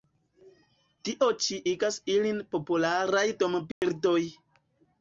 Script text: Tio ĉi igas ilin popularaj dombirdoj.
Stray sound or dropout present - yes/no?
yes